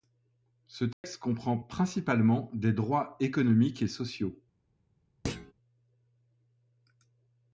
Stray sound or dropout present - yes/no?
yes